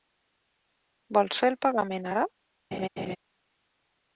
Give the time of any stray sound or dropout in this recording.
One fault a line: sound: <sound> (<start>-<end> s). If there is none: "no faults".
sound: laugh (2.7-3.2 s)